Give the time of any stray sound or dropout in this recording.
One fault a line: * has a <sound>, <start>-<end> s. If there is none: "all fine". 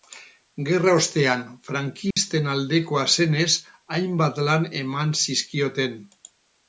* has a dropout, 2.1-2.2 s